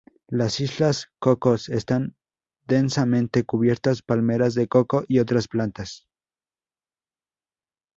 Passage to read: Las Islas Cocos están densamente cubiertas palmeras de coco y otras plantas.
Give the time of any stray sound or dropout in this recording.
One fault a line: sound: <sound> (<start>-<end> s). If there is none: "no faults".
no faults